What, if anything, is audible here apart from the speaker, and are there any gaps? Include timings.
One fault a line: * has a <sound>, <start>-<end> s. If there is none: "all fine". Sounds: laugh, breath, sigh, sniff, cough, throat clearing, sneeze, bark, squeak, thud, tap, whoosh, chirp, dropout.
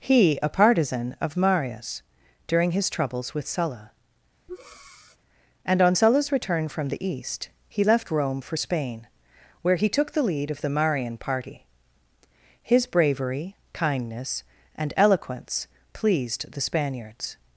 * has a breath, 4.5-5.2 s